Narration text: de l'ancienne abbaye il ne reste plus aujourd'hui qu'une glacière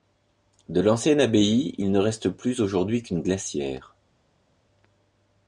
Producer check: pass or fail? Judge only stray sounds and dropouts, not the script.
pass